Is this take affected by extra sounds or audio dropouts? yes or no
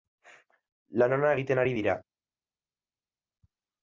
no